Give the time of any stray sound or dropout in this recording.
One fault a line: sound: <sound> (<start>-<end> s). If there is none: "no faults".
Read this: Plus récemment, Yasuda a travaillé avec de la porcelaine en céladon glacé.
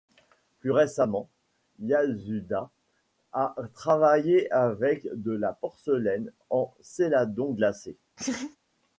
sound: laugh (8.2-8.6 s)